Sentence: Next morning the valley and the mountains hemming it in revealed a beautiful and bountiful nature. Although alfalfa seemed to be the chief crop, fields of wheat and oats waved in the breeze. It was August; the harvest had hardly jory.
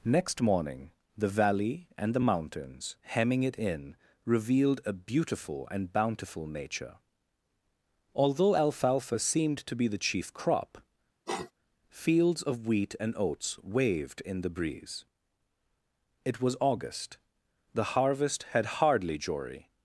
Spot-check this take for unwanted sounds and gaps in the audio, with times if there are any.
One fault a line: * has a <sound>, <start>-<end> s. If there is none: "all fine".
* has a sniff, 11.3-11.5 s